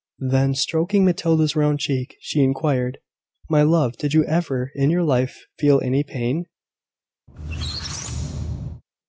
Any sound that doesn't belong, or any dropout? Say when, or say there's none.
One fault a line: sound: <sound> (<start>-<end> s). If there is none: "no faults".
sound: squeak (7.3-8.8 s)